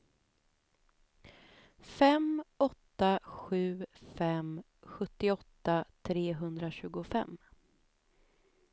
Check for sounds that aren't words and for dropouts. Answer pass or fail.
pass